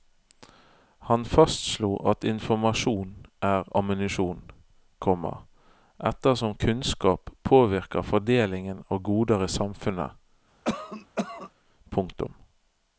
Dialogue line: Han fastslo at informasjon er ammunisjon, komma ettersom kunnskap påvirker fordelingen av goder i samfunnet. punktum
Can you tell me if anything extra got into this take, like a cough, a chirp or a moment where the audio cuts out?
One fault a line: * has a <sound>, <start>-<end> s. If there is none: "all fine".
* has a cough, 10.6-11.5 s